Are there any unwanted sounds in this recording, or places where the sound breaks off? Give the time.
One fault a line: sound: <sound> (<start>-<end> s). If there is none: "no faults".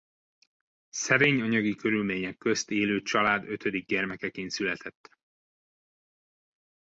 no faults